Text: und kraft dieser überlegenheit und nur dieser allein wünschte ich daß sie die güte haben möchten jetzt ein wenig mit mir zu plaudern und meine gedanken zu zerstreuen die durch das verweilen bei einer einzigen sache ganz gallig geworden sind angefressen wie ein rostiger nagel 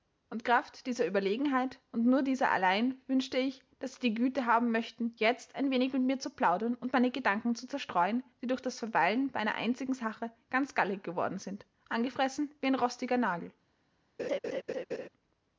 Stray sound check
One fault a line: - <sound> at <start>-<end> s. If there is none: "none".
- laugh at 14.2-15.1 s